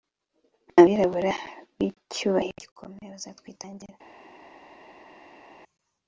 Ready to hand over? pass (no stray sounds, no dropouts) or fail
pass